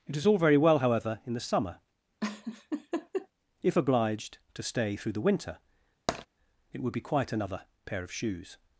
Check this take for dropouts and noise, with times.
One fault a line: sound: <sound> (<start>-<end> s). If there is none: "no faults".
sound: laugh (2.2-3.3 s)
sound: tap (6.1-6.3 s)